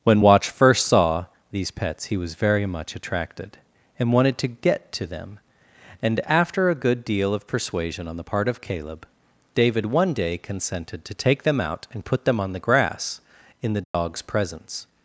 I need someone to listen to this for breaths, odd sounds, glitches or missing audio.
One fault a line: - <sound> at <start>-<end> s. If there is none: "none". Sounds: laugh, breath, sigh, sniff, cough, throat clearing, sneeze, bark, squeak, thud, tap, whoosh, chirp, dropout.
- dropout at 13.8-13.9 s